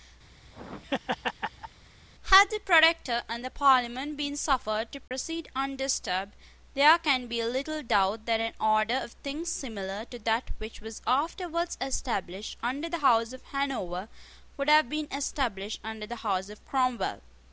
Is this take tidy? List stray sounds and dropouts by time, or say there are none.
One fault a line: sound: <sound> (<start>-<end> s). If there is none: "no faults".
sound: laugh (0.3-1.8 s)
sound: dropout (5.1-5.1 s)